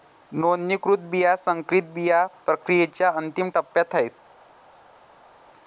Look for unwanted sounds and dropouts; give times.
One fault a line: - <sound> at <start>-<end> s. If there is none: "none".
none